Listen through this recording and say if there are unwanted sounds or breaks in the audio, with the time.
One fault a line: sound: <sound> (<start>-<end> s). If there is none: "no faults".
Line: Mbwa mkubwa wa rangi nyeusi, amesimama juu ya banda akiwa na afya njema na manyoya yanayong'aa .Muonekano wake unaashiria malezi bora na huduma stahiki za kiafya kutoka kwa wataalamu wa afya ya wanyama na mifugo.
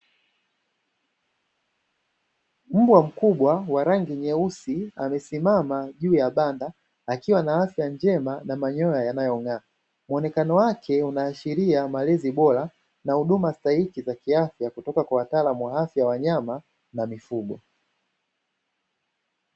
no faults